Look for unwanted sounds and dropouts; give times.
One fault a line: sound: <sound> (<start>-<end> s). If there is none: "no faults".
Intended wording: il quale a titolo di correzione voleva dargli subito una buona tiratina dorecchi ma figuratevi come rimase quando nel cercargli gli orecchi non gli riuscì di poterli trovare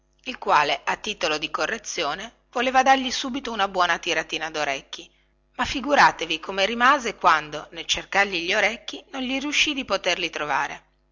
no faults